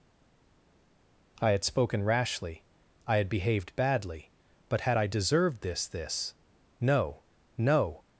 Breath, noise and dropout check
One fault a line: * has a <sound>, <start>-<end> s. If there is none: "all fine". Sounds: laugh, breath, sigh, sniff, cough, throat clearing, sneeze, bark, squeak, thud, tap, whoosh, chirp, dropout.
all fine